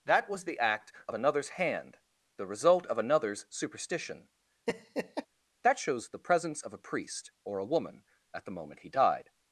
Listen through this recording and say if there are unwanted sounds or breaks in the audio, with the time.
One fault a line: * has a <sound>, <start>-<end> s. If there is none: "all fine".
* has a laugh, 4.7-5.3 s